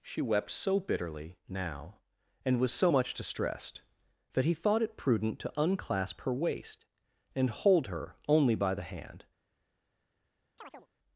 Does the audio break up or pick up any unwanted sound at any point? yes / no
yes